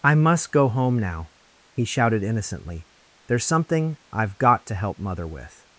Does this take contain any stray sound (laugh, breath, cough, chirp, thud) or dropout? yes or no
no